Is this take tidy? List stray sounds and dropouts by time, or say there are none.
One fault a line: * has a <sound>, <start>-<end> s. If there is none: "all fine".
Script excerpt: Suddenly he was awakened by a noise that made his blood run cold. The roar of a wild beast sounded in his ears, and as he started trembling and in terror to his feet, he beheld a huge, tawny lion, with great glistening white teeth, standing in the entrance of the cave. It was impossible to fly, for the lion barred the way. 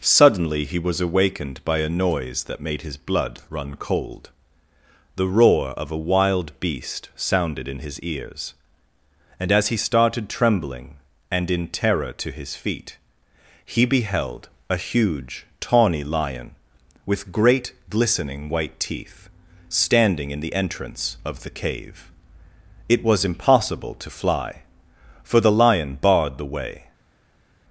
all fine